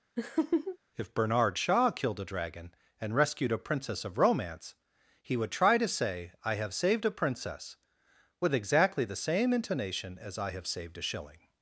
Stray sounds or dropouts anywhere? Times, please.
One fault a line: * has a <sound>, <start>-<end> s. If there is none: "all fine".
* has a laugh, 0.2-0.8 s